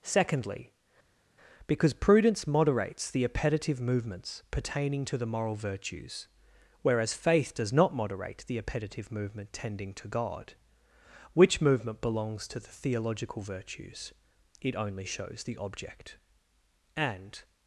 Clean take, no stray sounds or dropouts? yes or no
yes